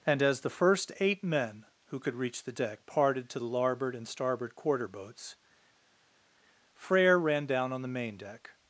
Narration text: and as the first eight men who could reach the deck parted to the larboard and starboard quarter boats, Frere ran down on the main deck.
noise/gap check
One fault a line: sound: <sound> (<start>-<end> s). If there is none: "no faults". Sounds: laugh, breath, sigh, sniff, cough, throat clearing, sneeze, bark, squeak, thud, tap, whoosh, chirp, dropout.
no faults